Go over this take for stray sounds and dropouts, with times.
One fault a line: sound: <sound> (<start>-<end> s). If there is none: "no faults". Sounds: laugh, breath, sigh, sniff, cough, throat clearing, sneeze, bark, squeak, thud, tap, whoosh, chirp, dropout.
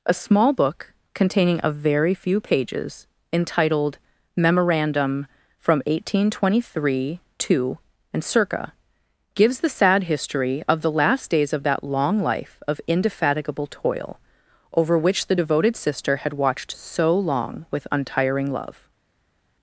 no faults